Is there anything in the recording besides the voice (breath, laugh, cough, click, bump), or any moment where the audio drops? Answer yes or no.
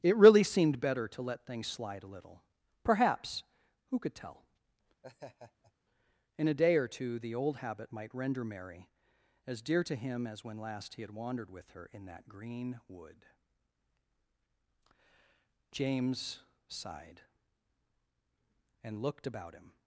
yes